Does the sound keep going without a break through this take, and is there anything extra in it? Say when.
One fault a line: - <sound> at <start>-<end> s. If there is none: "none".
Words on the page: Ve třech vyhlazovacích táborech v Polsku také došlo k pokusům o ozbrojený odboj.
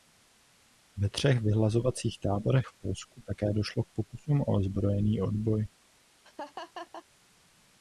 - laugh at 6.2-7.1 s